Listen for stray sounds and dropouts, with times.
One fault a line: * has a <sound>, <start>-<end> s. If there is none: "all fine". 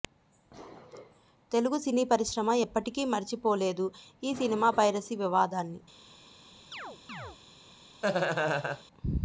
* has a chirp, 6.7-7.4 s
* has a laugh, 8.0-8.8 s